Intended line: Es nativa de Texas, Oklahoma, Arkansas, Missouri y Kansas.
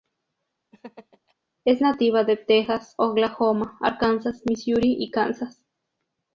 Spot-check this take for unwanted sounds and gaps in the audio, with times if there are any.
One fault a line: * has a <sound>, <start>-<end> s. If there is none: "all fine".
* has a laugh, 0.7-1.3 s